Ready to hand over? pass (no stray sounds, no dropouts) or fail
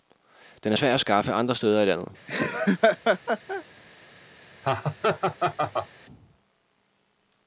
fail